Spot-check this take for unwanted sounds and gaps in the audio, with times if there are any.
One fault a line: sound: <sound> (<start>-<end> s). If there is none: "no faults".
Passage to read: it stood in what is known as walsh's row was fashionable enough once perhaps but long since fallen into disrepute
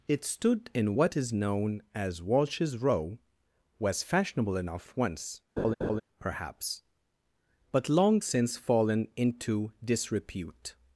sound: laugh (5.6-6.0 s)